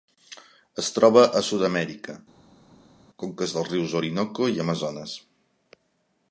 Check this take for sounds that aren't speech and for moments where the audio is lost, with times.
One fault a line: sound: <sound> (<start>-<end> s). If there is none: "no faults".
no faults